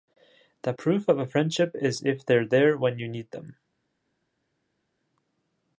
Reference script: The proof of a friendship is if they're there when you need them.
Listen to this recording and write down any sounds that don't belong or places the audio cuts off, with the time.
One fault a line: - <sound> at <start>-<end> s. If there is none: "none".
none